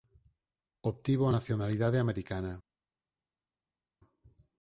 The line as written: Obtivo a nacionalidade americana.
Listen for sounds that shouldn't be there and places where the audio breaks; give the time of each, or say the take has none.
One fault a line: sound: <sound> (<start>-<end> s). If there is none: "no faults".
no faults